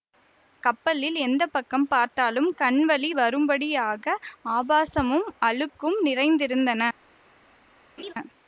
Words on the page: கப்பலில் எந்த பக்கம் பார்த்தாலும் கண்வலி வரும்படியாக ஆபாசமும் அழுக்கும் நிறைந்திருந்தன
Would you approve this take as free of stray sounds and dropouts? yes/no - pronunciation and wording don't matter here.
no